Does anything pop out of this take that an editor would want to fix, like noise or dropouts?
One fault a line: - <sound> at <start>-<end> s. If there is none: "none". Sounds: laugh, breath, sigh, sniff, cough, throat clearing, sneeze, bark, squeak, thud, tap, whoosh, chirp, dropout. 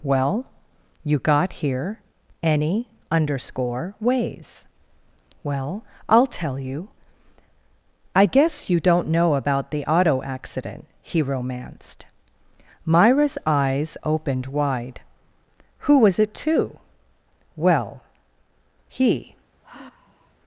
- sigh at 19.6-20.3 s